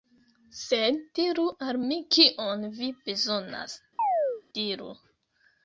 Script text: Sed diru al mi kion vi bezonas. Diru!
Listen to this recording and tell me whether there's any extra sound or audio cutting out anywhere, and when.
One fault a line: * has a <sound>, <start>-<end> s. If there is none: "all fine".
* has a chirp, 4.0-4.4 s